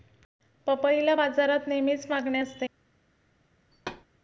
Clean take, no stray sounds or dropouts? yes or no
no